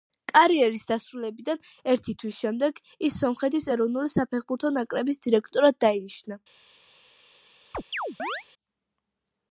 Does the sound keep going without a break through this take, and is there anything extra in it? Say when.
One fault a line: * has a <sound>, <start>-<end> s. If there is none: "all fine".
* has a chirp, 7.7-8.4 s